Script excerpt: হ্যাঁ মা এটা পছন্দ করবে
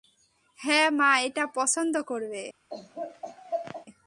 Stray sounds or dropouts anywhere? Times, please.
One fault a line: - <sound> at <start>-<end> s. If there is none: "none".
- laugh at 2.7-3.9 s